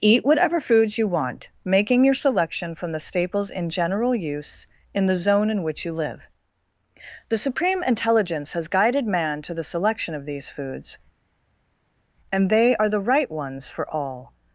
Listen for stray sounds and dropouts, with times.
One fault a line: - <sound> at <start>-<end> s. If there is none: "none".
none